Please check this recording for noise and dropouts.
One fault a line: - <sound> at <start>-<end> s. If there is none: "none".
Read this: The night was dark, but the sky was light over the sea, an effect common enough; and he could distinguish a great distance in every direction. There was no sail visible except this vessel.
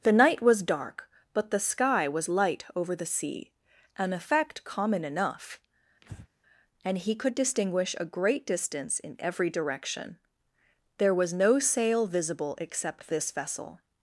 - breath at 6.0-6.3 s